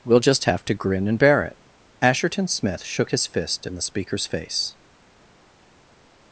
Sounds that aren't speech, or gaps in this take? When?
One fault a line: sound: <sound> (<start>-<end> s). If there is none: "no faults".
no faults